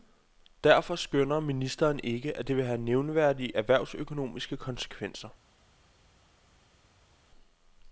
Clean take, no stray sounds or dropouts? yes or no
yes